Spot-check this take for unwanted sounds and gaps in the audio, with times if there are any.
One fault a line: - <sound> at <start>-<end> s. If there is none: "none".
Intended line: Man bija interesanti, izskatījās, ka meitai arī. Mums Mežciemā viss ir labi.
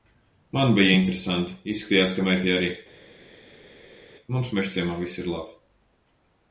none